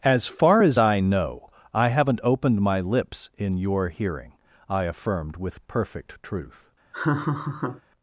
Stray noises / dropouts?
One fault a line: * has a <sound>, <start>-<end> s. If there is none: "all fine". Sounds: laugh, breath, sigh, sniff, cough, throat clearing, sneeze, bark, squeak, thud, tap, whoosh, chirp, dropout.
* has a laugh, 6.9-7.8 s